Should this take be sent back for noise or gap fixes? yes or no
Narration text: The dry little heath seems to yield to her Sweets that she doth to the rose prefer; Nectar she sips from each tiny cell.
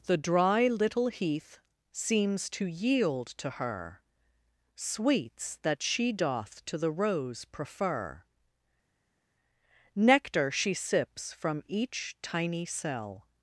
no